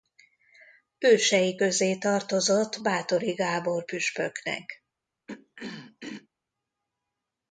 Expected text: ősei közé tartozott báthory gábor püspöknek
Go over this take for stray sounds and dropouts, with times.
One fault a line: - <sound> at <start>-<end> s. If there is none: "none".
- throat clearing at 5.3-6.3 s